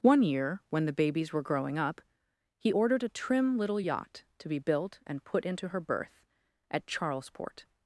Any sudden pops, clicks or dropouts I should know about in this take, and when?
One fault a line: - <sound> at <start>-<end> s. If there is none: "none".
none